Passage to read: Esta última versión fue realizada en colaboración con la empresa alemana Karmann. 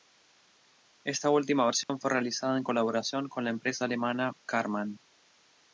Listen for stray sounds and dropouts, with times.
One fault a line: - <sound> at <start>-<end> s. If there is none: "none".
- dropout at 1.8-1.9 s